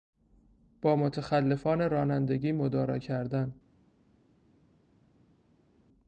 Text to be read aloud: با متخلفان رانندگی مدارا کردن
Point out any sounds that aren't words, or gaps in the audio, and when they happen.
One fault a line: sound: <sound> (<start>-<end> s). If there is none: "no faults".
no faults